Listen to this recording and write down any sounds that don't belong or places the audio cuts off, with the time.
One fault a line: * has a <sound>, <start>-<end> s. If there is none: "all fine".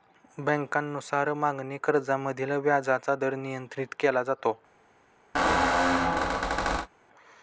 * has a squeak, 5.3-6.9 s